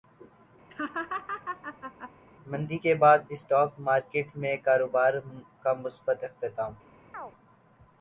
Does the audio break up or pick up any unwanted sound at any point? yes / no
yes